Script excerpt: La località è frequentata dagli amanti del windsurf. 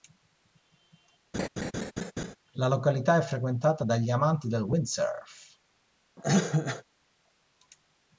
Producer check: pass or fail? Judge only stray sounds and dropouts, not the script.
fail